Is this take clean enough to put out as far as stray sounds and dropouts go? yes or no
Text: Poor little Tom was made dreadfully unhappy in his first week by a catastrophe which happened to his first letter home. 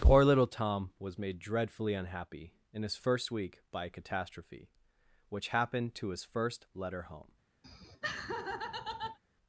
no